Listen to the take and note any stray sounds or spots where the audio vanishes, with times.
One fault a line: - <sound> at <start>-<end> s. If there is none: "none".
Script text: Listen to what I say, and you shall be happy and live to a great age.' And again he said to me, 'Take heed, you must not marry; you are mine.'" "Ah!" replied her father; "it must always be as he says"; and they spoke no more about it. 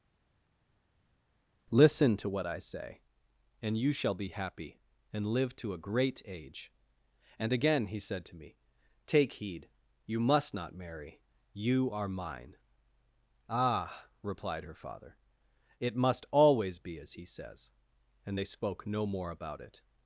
none